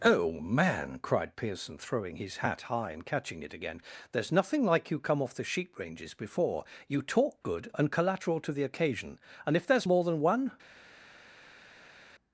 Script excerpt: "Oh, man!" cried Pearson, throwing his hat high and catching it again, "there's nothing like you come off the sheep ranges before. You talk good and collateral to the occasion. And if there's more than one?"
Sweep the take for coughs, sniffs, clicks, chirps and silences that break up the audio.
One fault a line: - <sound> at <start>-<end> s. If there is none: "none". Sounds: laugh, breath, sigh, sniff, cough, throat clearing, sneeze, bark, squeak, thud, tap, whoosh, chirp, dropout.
none